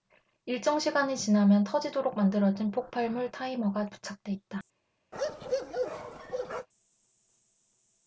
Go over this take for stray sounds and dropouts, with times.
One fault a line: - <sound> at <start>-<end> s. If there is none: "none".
- bark at 5.1-6.7 s